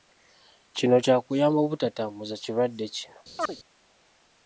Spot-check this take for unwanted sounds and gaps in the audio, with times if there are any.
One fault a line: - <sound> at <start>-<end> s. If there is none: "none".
- chirp at 3.4-3.6 s